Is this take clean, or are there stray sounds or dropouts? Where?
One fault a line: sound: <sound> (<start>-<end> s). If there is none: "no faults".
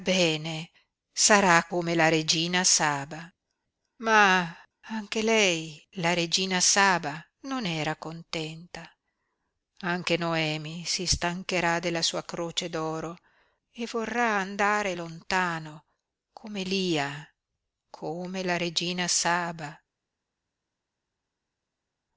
no faults